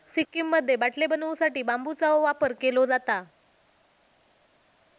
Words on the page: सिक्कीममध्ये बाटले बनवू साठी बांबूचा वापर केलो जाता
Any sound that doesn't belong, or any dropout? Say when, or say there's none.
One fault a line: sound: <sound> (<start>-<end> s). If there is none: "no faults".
no faults